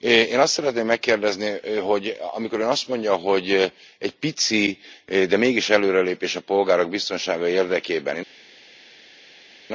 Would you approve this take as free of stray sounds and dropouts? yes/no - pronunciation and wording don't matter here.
yes